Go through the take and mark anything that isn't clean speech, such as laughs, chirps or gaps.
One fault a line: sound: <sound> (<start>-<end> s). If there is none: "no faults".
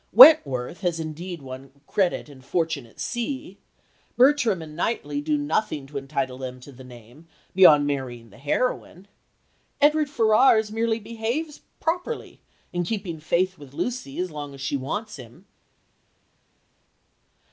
no faults